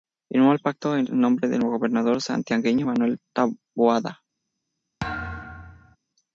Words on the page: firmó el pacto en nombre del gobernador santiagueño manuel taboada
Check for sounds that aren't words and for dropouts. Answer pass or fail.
fail